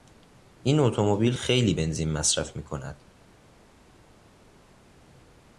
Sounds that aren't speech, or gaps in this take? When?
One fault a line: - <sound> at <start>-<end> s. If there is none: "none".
none